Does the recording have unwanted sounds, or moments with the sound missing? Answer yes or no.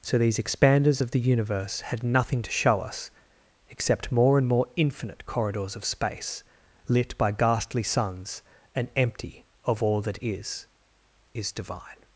no